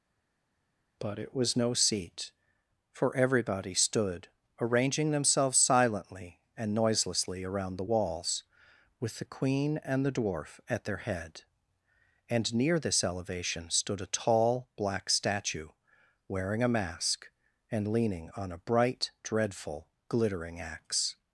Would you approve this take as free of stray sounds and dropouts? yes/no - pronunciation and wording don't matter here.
yes